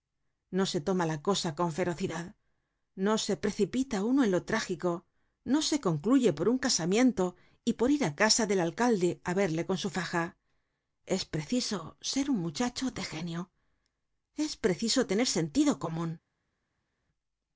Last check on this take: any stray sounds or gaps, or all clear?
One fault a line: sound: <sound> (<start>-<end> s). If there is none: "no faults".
no faults